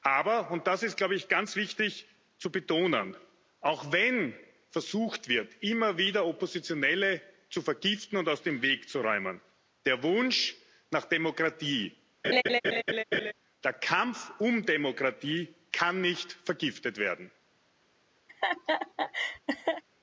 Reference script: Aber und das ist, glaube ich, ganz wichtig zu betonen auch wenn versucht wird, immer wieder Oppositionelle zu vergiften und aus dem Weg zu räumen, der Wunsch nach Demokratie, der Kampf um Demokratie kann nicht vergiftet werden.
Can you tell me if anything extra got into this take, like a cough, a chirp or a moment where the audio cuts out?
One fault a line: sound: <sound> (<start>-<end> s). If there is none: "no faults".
sound: laugh (12.2-13.3 s)
sound: laugh (18.3-19.8 s)